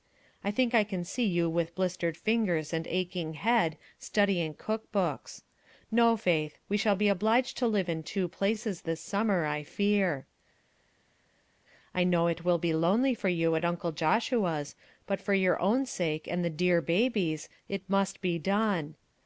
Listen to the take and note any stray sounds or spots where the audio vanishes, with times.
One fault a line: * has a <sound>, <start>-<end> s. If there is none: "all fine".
all fine